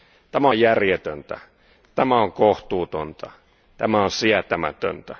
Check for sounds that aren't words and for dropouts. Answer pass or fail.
pass